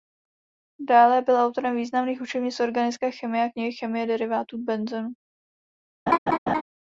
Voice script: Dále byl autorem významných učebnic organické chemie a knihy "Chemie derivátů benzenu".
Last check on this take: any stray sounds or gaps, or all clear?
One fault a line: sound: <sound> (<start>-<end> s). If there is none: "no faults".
sound: laugh (6.1-6.6 s)